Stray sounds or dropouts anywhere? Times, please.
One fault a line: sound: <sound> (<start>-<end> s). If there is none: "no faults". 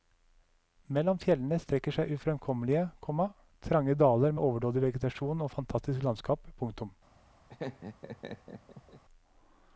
sound: laugh (7.5-9.0 s)